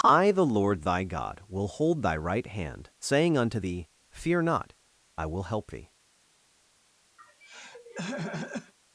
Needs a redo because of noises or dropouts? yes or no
yes